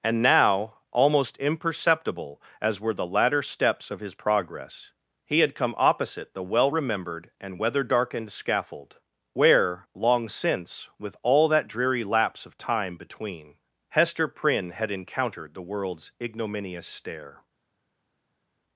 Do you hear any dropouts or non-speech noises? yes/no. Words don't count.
no